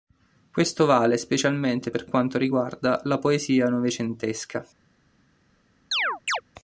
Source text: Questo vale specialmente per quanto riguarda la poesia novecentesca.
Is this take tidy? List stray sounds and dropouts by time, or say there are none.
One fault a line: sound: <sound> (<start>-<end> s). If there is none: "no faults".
sound: chirp (5.9-6.4 s)